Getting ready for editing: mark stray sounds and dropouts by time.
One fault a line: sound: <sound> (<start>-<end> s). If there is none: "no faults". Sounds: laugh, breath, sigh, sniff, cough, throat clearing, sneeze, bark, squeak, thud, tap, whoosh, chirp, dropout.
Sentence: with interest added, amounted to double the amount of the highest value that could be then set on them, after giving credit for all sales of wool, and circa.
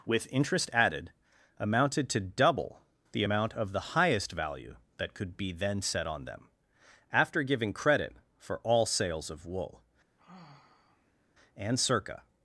sound: sigh (10.2-11.4 s)